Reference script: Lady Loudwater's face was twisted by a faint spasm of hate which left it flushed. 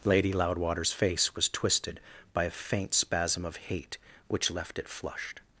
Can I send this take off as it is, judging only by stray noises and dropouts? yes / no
yes